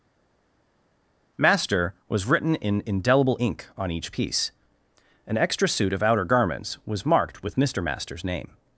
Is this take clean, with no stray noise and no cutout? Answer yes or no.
yes